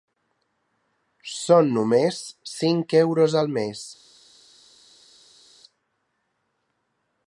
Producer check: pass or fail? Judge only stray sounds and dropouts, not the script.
pass